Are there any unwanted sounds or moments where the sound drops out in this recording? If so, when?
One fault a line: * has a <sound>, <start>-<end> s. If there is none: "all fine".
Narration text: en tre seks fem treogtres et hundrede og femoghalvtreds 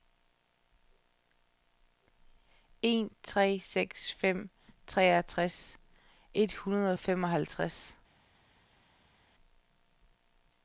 all fine